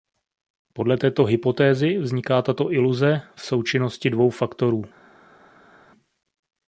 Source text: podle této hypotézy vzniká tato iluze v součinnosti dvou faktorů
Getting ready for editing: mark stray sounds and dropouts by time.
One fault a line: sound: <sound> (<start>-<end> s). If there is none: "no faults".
no faults